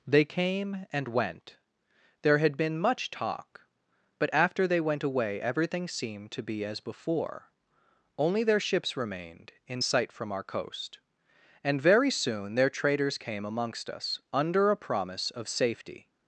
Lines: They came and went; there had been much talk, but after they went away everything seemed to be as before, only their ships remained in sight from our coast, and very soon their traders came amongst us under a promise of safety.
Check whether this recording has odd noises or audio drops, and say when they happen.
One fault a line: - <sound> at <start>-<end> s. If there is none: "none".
none